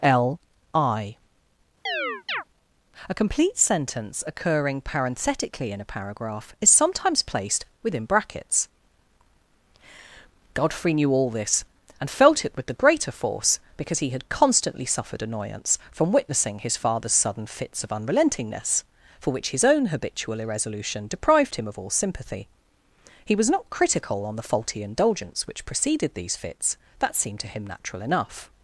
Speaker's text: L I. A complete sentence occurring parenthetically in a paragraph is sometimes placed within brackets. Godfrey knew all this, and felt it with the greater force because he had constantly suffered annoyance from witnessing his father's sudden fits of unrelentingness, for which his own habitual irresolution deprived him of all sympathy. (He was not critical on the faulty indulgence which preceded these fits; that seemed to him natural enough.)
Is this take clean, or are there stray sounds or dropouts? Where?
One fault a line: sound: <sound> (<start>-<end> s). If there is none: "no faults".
sound: chirp (1.9-2.4 s)